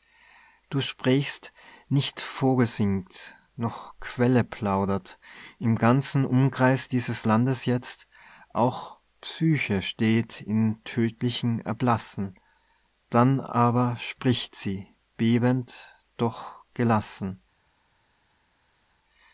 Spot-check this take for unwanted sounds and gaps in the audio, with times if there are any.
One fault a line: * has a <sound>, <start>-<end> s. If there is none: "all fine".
all fine